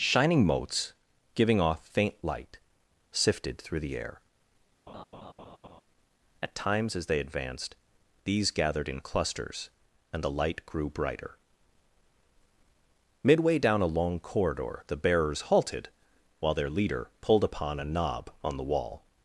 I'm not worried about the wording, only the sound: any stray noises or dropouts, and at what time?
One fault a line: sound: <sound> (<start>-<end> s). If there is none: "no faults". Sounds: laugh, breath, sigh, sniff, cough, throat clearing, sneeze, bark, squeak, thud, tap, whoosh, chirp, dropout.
sound: laugh (4.9-5.8 s)